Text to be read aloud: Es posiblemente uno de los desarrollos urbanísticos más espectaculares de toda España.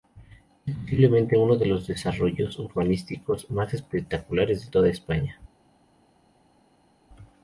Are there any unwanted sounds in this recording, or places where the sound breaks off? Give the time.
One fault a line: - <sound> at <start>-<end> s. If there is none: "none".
none